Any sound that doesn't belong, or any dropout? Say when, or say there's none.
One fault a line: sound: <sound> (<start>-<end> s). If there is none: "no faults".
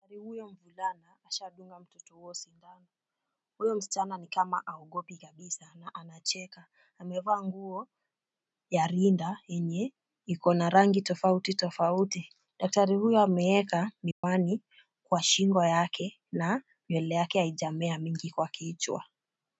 sound: dropout (14.1-14.2 s)